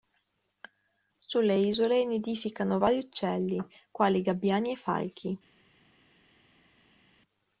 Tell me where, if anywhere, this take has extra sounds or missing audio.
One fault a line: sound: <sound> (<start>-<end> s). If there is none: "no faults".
no faults